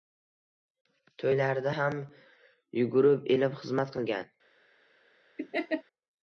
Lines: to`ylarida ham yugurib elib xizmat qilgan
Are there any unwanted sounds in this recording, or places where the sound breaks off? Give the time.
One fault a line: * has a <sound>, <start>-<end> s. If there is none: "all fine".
* has a laugh, 5.4-5.8 s